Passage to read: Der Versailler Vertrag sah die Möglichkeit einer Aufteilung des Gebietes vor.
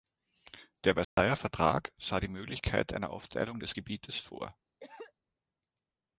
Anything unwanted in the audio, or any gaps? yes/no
yes